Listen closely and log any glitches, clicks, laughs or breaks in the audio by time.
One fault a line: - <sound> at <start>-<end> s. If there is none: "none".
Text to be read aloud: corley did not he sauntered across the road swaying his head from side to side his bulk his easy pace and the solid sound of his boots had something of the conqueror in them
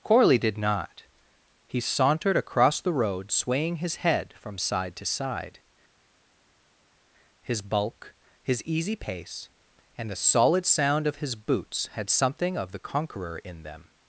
none